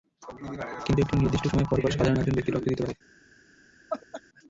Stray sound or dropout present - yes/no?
yes